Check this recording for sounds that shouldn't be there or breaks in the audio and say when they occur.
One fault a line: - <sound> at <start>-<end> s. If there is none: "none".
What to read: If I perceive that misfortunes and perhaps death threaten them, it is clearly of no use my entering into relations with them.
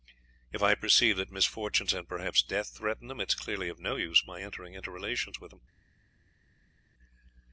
none